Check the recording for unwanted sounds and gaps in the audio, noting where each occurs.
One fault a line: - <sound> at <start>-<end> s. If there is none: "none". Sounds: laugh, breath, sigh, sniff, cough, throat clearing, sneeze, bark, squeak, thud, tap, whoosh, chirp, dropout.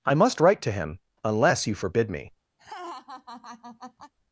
- laugh at 2.6-4.1 s